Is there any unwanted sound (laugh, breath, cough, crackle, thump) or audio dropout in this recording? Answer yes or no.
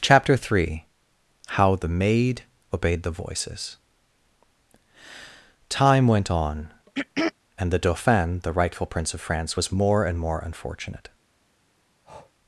yes